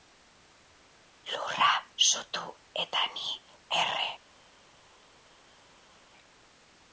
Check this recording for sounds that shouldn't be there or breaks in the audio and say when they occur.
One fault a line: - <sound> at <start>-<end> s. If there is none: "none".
none